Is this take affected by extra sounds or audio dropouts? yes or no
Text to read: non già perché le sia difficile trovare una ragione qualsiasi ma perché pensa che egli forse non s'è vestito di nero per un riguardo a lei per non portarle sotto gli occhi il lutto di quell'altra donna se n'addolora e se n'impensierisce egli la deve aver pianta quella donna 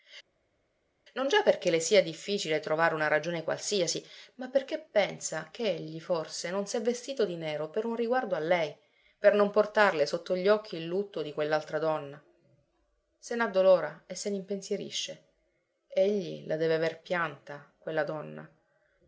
no